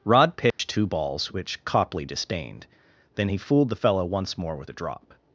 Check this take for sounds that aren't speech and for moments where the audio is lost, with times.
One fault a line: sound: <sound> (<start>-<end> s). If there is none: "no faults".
sound: dropout (0.5-0.6 s)